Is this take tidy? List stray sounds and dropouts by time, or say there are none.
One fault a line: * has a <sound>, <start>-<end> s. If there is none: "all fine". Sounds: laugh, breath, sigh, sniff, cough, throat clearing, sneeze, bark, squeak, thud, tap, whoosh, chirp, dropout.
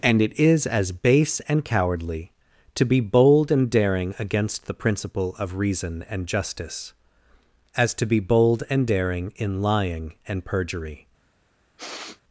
* has a sniff, 11.8-12.2 s